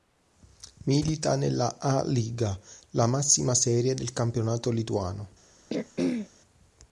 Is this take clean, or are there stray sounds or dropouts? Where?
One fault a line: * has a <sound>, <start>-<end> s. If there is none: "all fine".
* has a throat clearing, 5.7-6.3 s